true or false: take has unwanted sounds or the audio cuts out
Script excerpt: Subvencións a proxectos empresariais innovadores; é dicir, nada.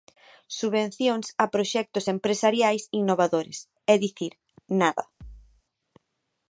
true